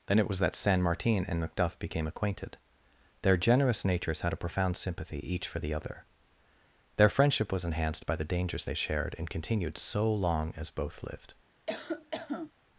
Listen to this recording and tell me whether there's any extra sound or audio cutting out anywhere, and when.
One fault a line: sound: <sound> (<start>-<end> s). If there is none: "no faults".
sound: cough (11.7-12.5 s)